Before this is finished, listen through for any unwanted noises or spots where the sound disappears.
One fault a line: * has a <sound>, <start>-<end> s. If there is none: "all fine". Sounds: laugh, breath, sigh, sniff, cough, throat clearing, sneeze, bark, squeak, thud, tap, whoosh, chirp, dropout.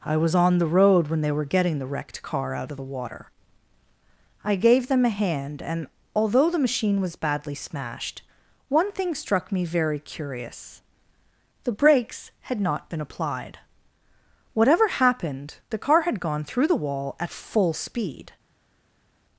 all fine